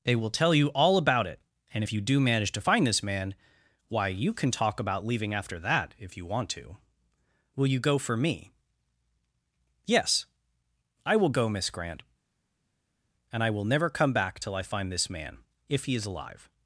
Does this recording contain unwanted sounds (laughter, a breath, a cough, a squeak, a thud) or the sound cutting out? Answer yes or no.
no